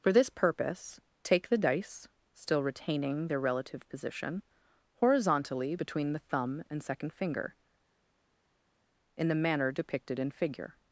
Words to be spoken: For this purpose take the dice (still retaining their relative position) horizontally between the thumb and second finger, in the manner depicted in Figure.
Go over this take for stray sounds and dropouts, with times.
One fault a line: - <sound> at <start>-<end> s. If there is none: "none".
none